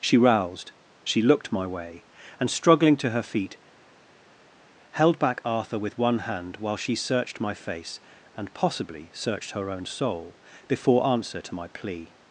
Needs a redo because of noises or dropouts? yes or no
no